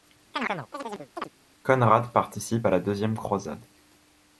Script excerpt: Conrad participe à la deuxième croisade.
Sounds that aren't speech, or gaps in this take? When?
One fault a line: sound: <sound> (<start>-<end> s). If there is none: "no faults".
sound: chirp (0.3-1.3 s)